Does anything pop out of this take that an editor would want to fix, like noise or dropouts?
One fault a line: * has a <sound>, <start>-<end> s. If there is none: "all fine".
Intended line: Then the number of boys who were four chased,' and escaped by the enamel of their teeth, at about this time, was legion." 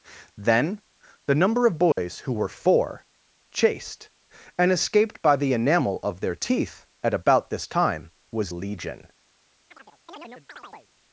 * has a dropout, 1.9-2.0 s
* has a chirp, 9.7-10.9 s